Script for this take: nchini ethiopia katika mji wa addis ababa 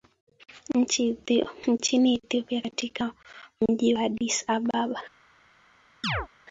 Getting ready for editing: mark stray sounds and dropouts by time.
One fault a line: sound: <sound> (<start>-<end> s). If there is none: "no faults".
sound: chirp (6.0-6.3 s)